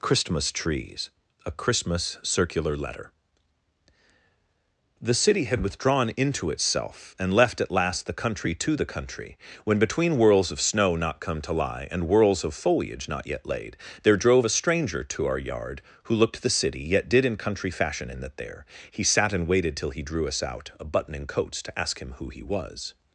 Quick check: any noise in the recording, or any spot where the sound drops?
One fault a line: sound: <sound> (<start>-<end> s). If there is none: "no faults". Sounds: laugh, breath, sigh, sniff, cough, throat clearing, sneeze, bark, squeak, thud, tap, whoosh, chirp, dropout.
no faults